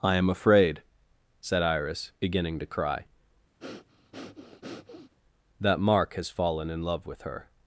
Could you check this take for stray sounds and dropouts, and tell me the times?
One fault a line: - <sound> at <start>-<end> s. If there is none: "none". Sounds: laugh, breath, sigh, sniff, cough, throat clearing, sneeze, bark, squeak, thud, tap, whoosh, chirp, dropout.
- breath at 3.6-5.1 s